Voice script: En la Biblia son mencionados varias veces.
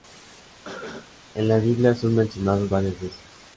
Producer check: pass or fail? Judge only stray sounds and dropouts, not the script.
fail